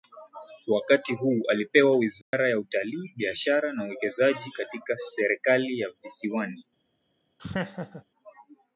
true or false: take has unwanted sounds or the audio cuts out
true